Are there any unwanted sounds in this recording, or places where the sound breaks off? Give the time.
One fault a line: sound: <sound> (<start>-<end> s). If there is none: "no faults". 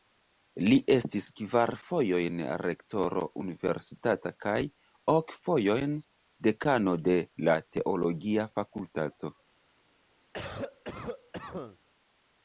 sound: cough (10.3-11.8 s)